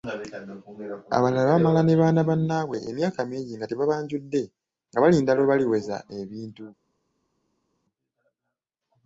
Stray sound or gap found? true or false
false